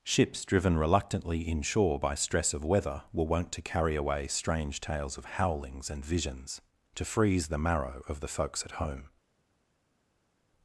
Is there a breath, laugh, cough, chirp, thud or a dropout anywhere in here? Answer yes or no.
no